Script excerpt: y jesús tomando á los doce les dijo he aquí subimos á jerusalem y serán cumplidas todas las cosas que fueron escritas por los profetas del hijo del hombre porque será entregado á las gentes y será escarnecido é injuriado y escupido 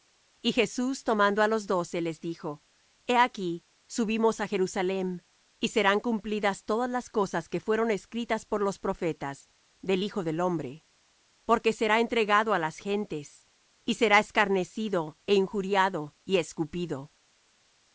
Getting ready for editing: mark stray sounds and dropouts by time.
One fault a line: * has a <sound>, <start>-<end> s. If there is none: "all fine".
all fine